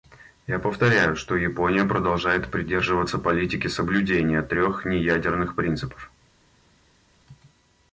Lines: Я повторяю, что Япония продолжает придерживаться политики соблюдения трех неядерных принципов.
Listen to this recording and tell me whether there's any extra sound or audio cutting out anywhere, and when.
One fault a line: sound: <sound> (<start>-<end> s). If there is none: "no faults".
no faults